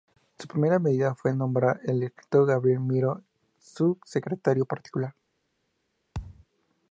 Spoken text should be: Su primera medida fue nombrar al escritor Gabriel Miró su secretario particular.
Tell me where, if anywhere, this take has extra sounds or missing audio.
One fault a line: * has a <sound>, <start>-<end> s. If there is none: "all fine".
* has a thud, 6.1-6.5 s